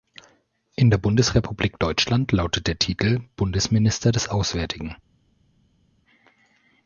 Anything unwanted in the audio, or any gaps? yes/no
no